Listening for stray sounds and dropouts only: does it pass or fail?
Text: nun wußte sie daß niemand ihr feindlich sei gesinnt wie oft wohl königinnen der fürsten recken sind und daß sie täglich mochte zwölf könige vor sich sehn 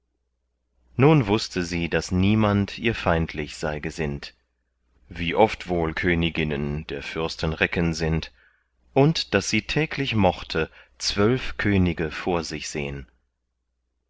pass